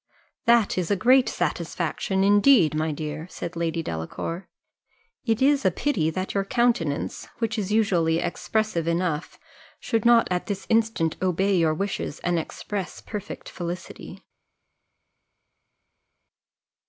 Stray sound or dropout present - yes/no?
no